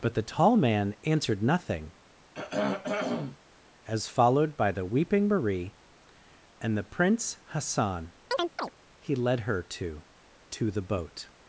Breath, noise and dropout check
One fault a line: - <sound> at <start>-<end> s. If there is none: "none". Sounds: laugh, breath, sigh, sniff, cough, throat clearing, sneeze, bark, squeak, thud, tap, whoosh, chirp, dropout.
- throat clearing at 2.3-3.4 s
- chirp at 8.3-8.7 s